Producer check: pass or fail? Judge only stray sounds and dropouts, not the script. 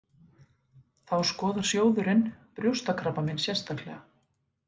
pass